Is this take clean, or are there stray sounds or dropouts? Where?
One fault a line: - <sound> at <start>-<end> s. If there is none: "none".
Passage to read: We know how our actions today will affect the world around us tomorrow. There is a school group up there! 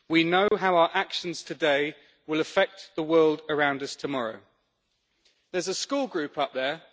- dropout at 0.5-0.5 s